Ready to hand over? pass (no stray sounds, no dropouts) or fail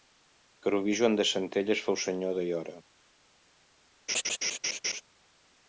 fail